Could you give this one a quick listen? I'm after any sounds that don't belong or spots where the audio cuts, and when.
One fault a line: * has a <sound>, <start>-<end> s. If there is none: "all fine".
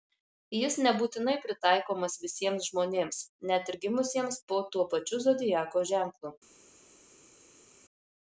all fine